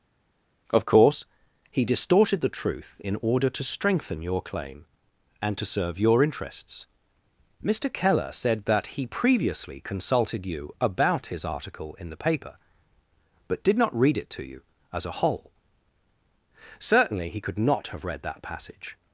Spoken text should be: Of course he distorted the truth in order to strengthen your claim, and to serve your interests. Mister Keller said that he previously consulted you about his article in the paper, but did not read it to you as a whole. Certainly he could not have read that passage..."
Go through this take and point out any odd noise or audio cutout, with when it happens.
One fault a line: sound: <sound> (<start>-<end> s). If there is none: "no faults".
no faults